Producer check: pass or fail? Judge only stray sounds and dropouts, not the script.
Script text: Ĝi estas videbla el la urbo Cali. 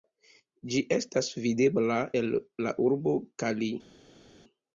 pass